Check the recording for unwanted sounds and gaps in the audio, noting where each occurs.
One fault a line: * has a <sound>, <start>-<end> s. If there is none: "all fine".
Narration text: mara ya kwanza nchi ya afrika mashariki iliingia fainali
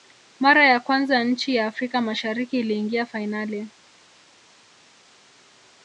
all fine